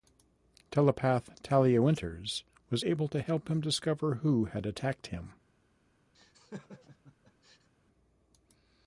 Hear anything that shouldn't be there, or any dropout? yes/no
yes